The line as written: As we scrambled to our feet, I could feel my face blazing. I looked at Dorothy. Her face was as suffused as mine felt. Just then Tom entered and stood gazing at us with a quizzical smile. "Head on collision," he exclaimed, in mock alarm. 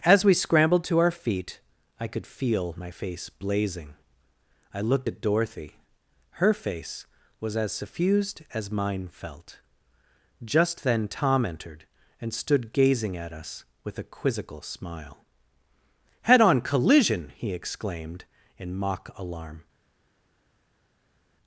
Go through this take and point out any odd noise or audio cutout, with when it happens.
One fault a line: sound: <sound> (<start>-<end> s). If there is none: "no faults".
no faults